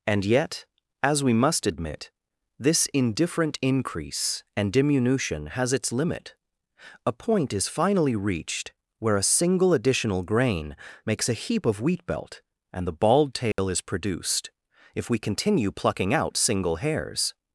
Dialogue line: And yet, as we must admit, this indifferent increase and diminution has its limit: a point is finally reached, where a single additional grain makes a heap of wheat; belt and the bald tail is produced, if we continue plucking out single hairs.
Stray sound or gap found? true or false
true